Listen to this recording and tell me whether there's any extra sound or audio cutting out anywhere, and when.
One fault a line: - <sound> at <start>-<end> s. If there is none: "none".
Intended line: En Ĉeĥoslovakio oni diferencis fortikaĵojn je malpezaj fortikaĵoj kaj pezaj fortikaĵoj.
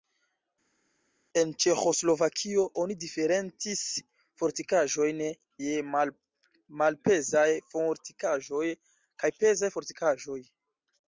none